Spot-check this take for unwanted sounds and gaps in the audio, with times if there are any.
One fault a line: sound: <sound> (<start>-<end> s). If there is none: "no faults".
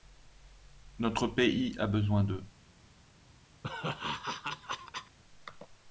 sound: laugh (3.6-5.2 s)